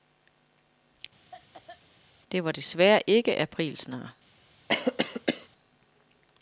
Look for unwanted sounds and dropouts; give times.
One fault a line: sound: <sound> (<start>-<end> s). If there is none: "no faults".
sound: cough (1.3-1.8 s)
sound: cough (4.7-5.5 s)